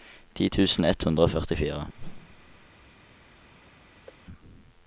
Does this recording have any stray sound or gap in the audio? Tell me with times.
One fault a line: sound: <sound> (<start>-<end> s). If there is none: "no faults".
sound: whoosh (1.9-2.7 s)
sound: thud (4.1-4.2 s)